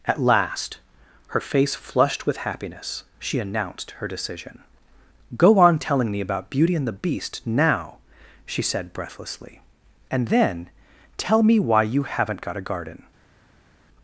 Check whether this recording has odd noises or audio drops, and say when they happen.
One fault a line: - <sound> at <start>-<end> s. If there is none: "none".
none